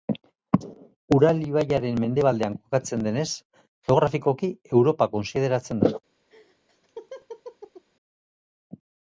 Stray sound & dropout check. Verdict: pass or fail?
fail